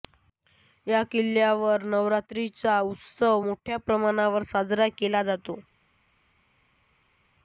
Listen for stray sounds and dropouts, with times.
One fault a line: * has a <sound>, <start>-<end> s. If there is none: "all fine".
all fine